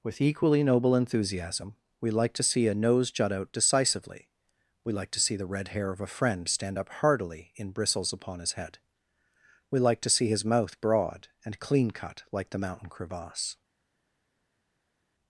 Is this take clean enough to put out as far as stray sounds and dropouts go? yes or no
yes